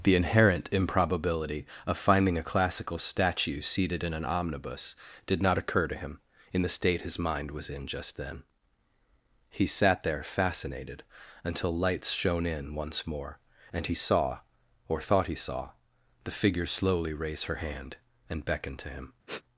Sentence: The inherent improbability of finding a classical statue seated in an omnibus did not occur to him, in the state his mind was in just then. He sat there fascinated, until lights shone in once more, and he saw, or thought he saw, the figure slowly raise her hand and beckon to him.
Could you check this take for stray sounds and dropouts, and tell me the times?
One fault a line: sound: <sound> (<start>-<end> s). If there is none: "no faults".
sound: sniff (19.3-19.4 s)